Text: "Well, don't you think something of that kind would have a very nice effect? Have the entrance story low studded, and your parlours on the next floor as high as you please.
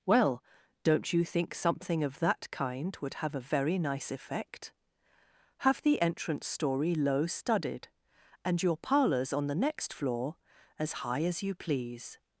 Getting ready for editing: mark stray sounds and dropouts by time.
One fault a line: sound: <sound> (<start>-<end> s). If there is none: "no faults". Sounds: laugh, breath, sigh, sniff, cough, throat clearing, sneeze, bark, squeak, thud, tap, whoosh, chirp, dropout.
no faults